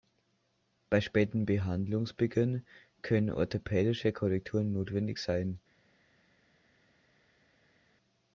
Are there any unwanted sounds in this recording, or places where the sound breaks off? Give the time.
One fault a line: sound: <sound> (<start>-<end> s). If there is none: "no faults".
no faults